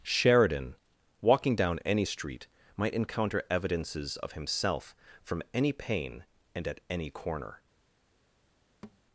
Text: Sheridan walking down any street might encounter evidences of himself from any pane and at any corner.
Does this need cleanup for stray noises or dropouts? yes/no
yes